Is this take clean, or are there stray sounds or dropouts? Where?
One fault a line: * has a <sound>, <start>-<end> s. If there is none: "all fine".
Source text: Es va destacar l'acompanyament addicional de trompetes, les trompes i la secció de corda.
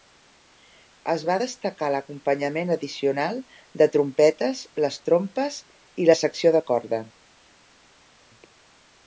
all fine